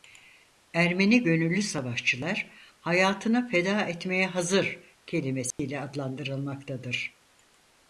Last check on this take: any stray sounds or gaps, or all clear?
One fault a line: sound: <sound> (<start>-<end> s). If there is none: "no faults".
sound: dropout (5.5-5.6 s)